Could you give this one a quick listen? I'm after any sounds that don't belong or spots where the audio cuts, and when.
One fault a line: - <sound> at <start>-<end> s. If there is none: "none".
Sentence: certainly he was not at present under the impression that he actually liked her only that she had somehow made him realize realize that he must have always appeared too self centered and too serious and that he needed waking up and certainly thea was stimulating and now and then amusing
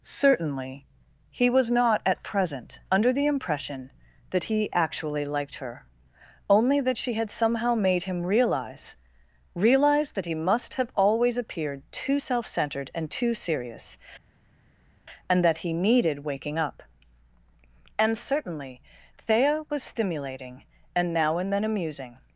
none